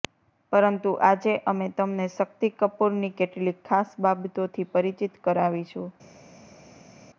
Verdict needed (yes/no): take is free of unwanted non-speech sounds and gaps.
yes